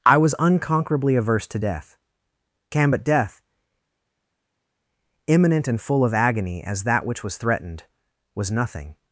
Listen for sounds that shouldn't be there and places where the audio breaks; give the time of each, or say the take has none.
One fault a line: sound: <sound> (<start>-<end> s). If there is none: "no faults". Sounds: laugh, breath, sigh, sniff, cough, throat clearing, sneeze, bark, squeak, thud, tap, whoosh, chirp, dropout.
no faults